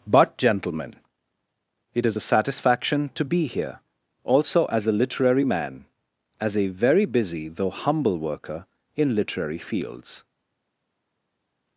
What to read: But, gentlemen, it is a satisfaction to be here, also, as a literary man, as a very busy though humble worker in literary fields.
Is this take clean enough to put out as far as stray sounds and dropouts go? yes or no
yes